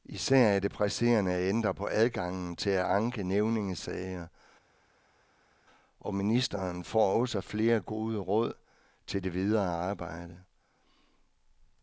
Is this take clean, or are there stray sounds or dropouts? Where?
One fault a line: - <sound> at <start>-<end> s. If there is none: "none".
none